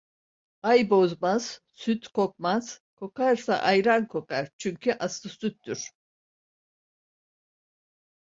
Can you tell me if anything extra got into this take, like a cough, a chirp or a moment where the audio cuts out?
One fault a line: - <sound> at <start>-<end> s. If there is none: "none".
none